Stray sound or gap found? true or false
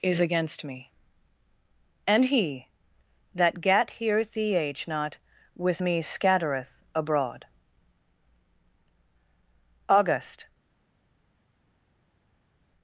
false